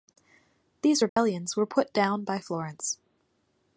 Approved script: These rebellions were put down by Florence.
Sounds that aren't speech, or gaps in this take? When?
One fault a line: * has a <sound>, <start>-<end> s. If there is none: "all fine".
* has a dropout, 1.1-1.2 s